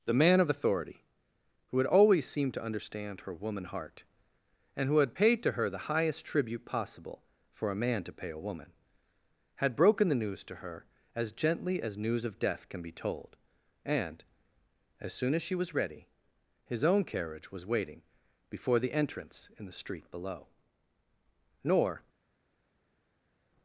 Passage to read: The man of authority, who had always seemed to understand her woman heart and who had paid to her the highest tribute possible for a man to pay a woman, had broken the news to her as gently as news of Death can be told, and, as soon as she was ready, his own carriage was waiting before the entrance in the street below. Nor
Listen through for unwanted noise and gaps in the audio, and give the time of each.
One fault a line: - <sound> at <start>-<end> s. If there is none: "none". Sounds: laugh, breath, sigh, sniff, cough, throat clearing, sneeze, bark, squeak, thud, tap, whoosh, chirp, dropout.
none